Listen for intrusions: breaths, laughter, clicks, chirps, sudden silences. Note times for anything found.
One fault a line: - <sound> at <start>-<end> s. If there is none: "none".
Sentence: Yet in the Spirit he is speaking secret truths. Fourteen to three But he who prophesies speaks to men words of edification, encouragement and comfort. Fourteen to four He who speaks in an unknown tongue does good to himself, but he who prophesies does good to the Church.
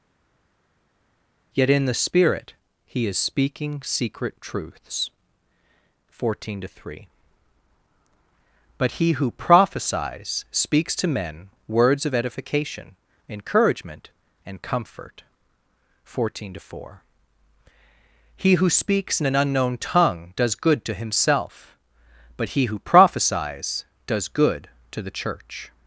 none